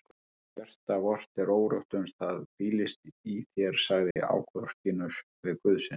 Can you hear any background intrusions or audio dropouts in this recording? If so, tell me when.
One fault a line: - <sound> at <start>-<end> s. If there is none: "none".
- dropout at 4.1-4.2 s